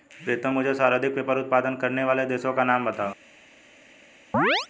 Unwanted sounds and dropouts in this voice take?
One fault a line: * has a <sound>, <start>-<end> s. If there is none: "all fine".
* has a chirp, 4.3-4.7 s